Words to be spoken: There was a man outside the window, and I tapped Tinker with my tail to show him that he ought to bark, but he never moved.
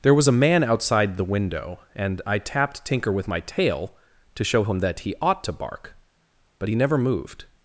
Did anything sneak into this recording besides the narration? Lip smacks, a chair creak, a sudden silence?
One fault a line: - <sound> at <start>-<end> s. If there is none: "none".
none